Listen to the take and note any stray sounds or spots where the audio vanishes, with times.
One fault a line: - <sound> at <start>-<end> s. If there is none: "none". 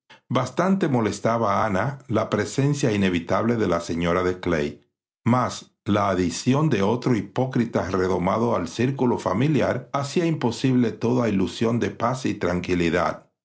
none